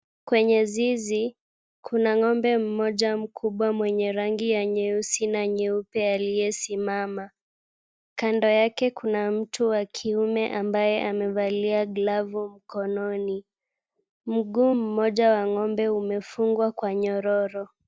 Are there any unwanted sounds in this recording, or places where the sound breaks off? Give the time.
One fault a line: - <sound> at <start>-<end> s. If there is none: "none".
none